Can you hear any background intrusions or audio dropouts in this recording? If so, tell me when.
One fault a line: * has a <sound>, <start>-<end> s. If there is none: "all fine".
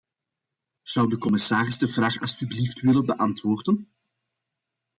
all fine